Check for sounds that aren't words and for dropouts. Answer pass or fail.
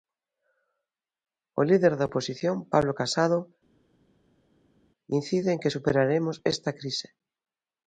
pass